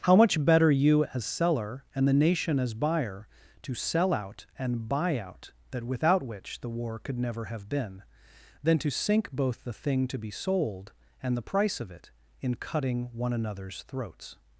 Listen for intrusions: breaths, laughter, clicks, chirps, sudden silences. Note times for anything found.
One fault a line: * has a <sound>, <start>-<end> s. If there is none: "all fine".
all fine